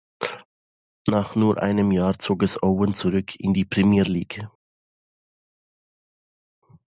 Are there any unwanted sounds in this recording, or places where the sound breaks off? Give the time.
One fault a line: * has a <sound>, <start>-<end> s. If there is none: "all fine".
all fine